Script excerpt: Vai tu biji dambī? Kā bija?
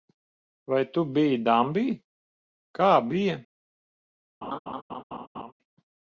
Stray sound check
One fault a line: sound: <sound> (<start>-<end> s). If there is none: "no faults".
sound: laugh (4.4-5.5 s)